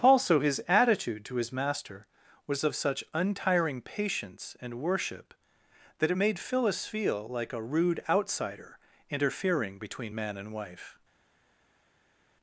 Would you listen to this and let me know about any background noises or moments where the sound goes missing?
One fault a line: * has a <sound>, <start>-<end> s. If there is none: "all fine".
all fine